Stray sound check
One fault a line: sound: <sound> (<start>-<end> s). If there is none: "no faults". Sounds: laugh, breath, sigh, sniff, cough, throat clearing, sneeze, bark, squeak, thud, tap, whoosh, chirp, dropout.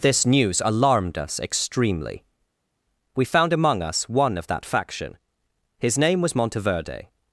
no faults